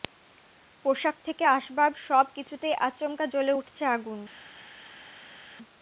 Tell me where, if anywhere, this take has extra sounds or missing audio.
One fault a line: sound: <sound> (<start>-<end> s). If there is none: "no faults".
no faults